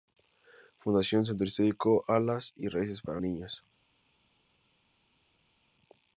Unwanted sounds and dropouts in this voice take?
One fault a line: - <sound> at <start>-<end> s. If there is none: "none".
none